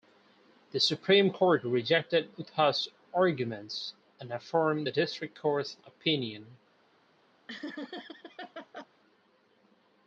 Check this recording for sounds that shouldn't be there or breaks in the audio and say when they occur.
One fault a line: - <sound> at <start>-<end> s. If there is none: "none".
- laugh at 7.5-8.9 s